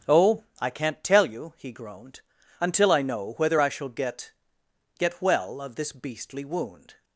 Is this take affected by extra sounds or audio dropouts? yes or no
no